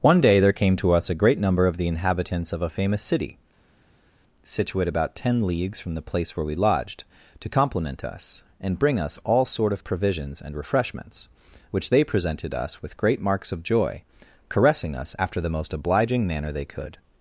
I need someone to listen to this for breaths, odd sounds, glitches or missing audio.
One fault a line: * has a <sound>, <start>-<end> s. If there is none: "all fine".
all fine